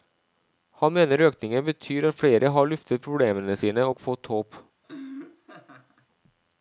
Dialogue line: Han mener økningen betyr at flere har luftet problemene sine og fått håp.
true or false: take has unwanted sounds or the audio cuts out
true